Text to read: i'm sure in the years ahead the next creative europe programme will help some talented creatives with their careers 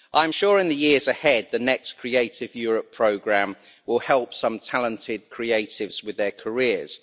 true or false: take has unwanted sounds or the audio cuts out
false